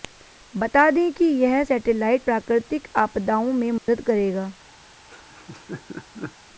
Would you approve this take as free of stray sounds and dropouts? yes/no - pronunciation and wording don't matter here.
no